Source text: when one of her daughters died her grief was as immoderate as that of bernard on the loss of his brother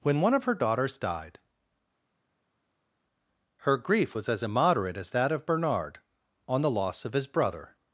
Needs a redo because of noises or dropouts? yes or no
no